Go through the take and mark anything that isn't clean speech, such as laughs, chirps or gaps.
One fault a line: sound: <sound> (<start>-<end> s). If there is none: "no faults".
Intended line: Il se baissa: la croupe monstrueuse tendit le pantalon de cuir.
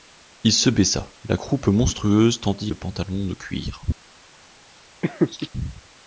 sound: laugh (5.0-5.5 s)